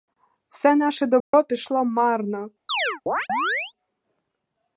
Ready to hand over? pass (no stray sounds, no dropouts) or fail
fail